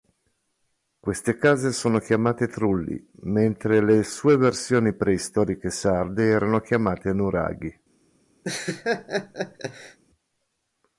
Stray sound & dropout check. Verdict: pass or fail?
fail